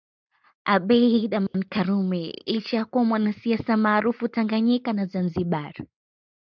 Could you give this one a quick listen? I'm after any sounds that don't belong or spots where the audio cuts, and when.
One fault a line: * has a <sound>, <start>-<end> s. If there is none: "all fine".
* has a dropout, 1.5-1.5 s